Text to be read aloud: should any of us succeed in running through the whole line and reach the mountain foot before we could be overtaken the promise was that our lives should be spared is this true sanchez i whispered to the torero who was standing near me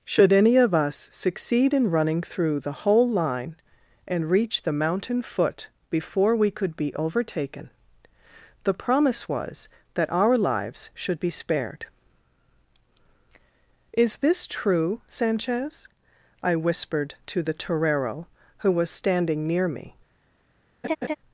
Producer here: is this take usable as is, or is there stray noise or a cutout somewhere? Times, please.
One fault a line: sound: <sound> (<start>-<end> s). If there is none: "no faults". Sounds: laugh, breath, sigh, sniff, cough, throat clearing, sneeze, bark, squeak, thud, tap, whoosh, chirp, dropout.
sound: laugh (20.8-21.2 s)